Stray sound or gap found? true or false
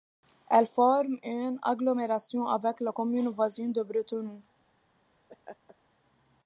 true